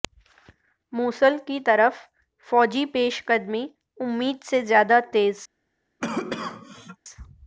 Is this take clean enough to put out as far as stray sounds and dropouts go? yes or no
no